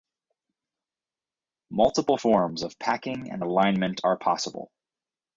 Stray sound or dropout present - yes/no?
no